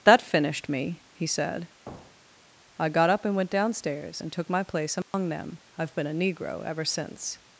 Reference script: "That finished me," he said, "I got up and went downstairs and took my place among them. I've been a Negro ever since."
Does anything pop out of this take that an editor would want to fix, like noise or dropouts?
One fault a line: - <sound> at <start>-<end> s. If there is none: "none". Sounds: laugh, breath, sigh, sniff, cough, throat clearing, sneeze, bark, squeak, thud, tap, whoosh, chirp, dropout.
- thud at 1.9-2.5 s
- dropout at 5.0-5.1 s